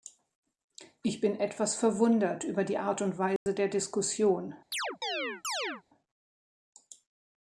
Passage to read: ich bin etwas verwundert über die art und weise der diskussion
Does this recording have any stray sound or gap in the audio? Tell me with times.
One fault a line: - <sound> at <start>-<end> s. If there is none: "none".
- dropout at 3.4-3.5 s
- chirp at 4.7-5.8 s